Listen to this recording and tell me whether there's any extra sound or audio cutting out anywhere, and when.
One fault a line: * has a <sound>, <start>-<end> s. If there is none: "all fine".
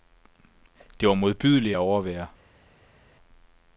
all fine